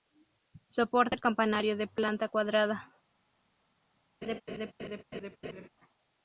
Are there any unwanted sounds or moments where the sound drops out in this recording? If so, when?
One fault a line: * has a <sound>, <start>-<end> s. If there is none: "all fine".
* has a laugh, 4.2-5.7 s